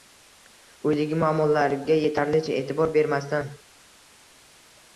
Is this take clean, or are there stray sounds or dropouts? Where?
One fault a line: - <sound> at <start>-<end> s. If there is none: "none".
none